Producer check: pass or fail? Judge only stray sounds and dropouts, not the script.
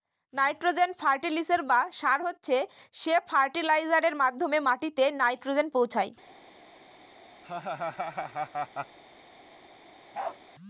fail